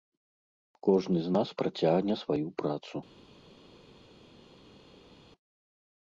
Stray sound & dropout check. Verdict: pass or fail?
pass